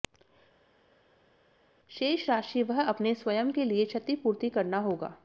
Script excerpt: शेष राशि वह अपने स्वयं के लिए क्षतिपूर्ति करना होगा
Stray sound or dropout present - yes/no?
no